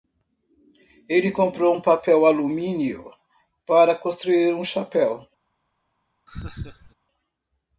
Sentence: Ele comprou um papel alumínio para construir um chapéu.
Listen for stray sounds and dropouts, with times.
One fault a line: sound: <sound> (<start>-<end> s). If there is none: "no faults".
sound: laugh (6.3-6.9 s)